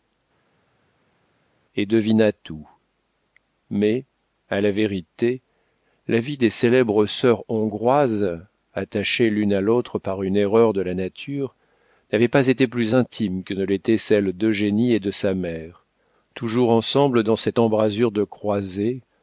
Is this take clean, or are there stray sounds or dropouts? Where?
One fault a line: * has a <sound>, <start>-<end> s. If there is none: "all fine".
all fine